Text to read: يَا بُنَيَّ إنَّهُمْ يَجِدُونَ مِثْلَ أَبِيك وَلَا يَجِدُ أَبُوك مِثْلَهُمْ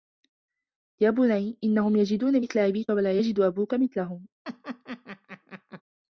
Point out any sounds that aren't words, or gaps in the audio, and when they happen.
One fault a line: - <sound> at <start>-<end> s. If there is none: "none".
- laugh at 4.4-5.8 s